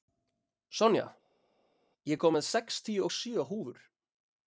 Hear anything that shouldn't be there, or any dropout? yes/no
no